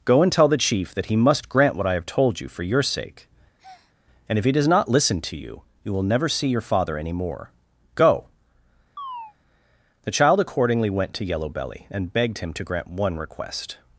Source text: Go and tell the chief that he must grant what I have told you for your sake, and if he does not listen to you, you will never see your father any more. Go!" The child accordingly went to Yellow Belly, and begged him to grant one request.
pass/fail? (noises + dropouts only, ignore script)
fail